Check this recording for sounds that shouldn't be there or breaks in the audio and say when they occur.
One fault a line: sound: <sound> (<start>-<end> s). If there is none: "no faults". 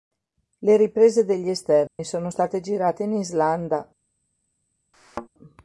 sound: dropout (1.9-2.0 s)
sound: thud (4.9-5.3 s)